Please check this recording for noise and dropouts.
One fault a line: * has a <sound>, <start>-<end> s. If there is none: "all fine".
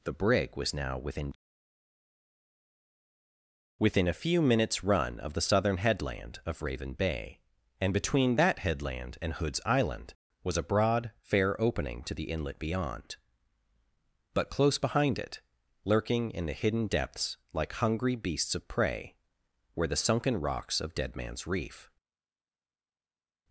all fine